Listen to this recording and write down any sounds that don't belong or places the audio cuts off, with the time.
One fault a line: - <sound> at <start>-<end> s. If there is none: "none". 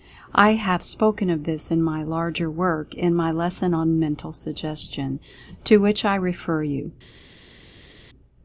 none